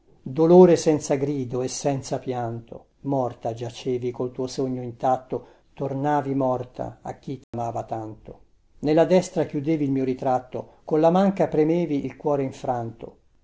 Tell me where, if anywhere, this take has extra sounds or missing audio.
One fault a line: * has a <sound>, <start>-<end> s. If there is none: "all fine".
* has a dropout, 7.4-7.5 s